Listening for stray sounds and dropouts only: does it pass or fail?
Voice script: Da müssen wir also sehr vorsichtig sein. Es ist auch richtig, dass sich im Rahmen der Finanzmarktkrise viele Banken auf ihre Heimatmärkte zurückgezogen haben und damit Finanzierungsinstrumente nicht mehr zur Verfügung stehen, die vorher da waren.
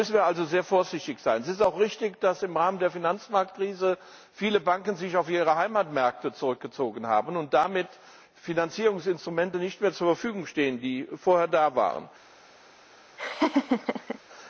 fail